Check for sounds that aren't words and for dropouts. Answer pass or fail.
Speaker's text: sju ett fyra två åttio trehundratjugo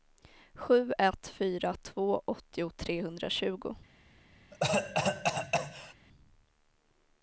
fail